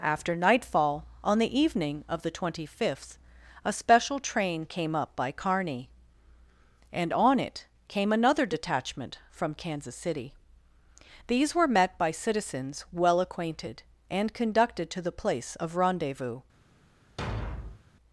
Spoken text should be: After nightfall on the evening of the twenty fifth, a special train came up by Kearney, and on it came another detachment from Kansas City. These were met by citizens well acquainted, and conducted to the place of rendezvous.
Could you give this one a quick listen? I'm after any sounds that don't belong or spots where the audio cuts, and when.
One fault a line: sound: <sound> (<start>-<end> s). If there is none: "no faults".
sound: thud (17.2-17.8 s)